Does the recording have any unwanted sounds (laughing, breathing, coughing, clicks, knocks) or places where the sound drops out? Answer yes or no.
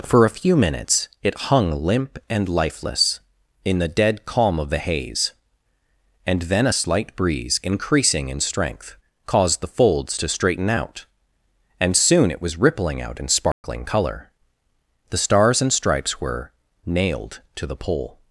yes